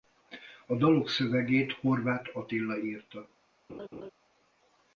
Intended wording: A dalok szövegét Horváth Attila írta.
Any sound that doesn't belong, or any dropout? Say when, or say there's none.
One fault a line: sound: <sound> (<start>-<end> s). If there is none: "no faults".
sound: laugh (3.7-4.1 s)